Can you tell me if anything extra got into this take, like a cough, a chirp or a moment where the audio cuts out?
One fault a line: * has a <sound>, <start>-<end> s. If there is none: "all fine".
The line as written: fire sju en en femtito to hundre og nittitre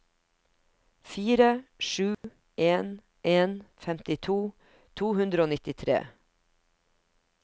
* has a dropout, 2.1-2.2 s